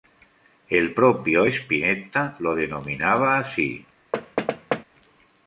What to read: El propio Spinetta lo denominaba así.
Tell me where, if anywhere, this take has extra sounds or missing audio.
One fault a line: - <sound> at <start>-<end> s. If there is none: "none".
- thud at 4.1-4.8 s